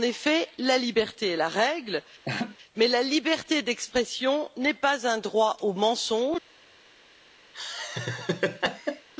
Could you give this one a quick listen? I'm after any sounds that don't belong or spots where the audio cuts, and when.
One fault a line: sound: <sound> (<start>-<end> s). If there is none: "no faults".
sound: laugh (2.2-2.6 s)
sound: laugh (7.5-9.1 s)